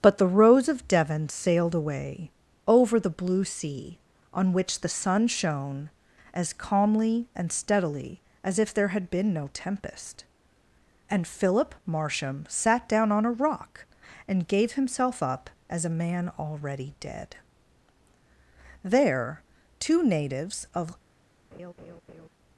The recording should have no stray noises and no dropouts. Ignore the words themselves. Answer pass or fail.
fail